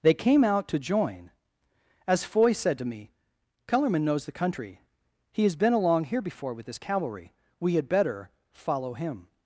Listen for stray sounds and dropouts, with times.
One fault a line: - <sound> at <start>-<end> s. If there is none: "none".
none